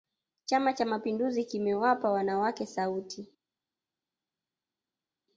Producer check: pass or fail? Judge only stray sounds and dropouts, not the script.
pass